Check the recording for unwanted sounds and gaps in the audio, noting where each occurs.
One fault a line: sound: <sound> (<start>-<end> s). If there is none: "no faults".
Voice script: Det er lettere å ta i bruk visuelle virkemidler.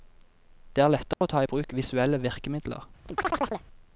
sound: dropout (1.1-1.2 s)
sound: chirp (3.1-3.7 s)